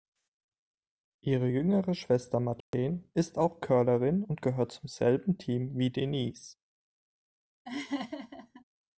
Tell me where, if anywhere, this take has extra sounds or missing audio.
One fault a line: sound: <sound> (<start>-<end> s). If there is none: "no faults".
sound: dropout (2.6-2.7 s)
sound: laugh (7.7-8.6 s)